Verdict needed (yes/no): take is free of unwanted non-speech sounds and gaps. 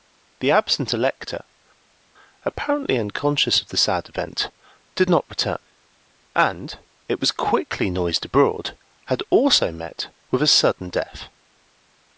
yes